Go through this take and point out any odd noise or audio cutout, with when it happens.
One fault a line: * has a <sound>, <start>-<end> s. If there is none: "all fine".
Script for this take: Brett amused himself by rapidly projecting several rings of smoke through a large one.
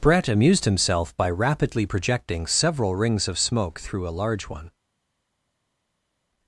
all fine